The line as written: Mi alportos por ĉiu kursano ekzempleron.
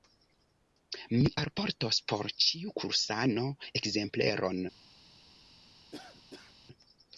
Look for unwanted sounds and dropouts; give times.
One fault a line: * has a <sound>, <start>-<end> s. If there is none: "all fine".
* has a cough, 5.9-6.6 s